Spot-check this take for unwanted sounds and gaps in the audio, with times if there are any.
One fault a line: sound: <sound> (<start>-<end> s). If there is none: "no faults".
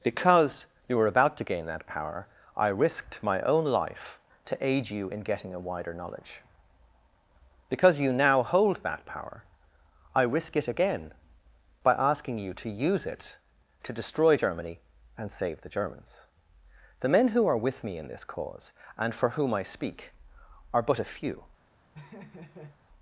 sound: laugh (21.9-22.8 s)